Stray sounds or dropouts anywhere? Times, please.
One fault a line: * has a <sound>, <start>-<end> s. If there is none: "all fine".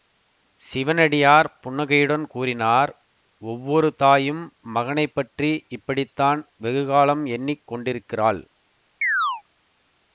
* has a chirp, 9.0-9.4 s